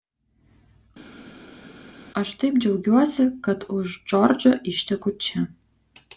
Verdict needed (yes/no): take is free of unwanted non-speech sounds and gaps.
yes